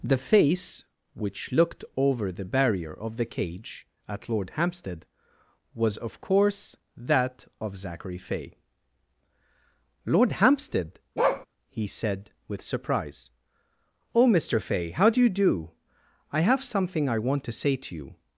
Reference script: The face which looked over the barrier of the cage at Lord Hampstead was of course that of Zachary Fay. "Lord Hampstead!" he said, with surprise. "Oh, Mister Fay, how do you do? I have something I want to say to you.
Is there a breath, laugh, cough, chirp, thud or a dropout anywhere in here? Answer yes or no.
yes